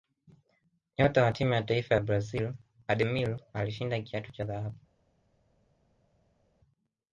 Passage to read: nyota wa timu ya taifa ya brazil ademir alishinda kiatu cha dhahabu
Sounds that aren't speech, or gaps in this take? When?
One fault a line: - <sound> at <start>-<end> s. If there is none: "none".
none